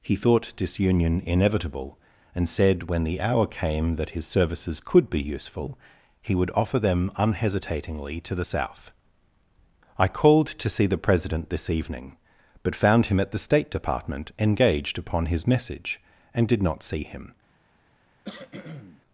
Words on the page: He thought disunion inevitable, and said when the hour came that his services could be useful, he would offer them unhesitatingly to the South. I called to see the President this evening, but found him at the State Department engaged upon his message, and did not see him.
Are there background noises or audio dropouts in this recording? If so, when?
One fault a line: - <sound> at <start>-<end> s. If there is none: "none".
- cough at 18.2-19.0 s